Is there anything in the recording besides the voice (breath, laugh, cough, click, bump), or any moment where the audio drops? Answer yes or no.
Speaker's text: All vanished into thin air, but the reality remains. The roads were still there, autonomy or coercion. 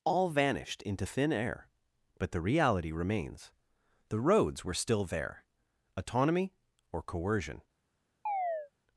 yes